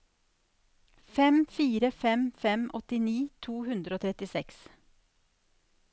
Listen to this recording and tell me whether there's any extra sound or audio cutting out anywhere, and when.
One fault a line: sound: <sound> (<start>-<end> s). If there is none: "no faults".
no faults